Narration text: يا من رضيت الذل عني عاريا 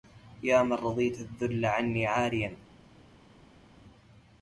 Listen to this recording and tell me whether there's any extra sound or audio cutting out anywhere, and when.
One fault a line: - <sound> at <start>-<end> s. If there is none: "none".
none